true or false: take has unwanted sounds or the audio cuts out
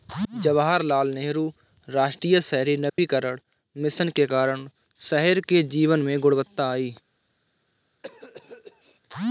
true